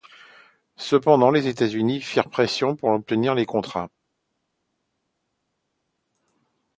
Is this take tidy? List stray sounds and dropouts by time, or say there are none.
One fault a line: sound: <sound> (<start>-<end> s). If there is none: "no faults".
no faults